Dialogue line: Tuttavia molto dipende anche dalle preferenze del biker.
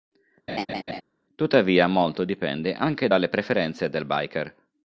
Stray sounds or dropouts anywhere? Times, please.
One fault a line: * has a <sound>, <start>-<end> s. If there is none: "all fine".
* has a laugh, 0.5-1.0 s